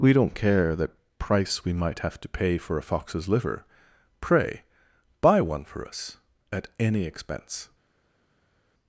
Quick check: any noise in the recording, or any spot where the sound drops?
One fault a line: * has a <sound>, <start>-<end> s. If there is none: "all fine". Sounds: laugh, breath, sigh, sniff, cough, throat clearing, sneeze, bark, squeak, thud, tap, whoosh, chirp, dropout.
all fine